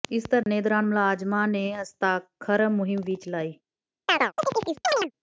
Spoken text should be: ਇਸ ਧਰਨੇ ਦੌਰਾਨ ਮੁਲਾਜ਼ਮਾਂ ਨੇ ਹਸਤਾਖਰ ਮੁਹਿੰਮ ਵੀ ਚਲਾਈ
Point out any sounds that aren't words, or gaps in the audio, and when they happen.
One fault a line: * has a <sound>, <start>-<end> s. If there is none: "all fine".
* has a dropout, 0.4-0.5 s
* has a chirp, 4.1-5.1 s